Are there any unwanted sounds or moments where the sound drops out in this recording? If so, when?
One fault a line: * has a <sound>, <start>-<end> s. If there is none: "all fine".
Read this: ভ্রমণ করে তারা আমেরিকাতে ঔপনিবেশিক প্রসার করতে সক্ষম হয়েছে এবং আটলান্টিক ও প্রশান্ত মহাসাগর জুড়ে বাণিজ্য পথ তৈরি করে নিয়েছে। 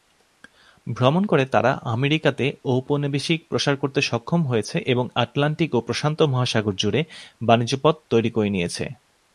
all fine